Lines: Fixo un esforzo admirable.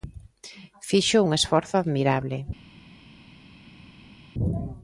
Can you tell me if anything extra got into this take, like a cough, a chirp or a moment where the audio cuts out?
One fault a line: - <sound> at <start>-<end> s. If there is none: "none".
none